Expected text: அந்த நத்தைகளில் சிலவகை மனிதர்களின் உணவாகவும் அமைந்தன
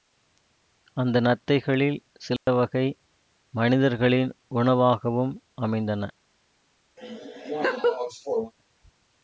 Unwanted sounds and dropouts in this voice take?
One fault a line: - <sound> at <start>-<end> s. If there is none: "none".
- dropout at 2.4-2.5 s
- laugh at 7.0-8.5 s